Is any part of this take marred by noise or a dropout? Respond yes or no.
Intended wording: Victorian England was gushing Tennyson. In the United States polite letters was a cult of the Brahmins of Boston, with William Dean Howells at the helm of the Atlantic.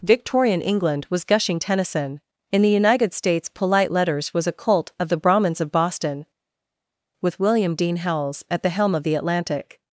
no